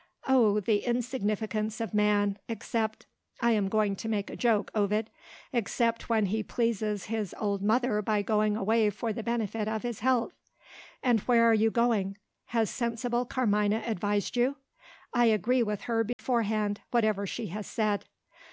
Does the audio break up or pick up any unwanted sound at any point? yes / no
yes